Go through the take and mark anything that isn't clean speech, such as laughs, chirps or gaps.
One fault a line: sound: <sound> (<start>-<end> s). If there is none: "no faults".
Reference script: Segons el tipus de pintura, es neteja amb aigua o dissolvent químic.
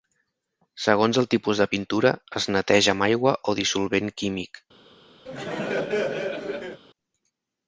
sound: laugh (5.3-6.8 s)